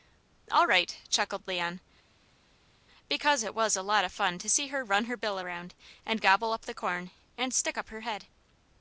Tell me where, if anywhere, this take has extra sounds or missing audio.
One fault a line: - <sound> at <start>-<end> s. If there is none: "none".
none